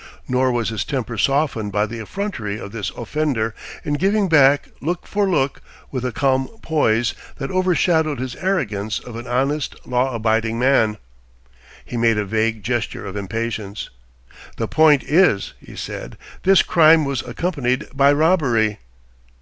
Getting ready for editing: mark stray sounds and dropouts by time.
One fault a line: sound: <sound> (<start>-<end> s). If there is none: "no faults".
no faults